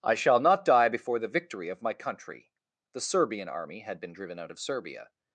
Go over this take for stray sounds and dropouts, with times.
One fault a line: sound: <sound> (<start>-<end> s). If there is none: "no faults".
no faults